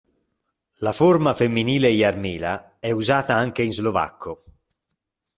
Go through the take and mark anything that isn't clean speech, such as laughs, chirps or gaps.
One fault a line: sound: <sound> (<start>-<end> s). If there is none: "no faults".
no faults